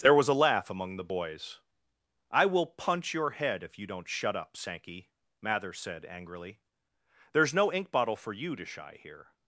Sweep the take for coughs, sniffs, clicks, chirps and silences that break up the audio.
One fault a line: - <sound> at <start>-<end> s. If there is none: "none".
none